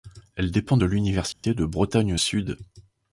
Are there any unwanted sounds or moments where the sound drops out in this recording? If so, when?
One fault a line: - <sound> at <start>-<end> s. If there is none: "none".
- dropout at 1.3-1.4 s